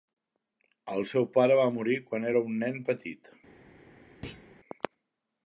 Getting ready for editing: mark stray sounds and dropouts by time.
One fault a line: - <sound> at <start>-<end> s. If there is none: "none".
- thud at 4.2-4.5 s